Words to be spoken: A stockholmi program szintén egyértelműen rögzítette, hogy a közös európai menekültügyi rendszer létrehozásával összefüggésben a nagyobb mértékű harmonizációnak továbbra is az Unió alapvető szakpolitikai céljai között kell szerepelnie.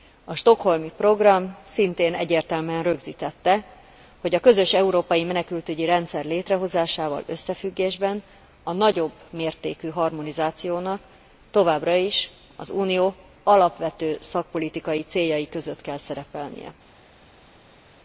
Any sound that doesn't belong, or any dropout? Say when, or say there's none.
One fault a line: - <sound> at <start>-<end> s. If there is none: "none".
none